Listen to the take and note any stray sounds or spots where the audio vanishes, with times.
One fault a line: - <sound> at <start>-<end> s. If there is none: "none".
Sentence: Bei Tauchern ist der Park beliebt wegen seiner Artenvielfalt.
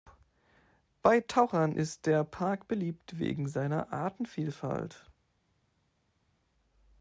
none